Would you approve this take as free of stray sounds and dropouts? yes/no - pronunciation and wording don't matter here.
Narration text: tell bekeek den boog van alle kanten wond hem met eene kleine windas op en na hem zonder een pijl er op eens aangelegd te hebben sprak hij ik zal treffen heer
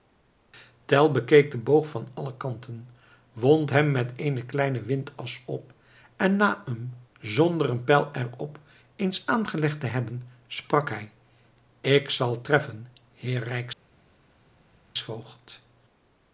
yes